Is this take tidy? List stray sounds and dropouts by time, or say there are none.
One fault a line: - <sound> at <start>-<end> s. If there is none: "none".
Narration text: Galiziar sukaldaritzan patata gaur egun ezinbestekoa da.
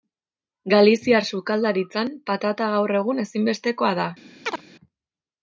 - chirp at 4.4-4.6 s